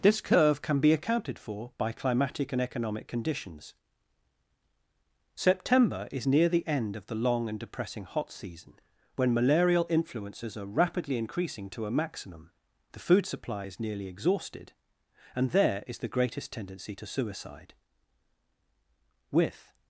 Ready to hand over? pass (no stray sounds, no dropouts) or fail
pass